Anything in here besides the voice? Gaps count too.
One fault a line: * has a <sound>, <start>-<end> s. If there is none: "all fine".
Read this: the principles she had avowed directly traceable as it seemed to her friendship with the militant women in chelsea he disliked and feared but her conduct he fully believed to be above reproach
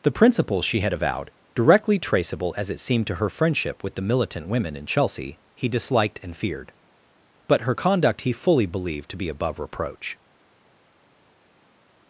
all fine